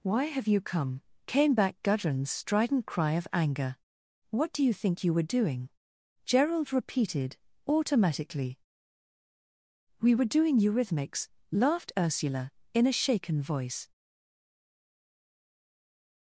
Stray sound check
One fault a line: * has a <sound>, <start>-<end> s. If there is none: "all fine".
all fine